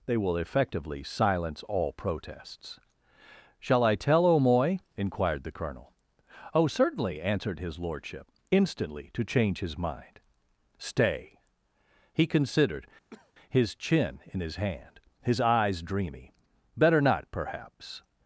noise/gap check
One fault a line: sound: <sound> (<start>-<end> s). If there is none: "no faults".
sound: cough (13.1-13.3 s)